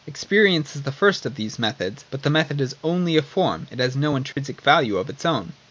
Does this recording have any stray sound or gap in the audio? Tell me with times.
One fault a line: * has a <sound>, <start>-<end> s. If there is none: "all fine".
* has a dropout, 4.3-4.4 s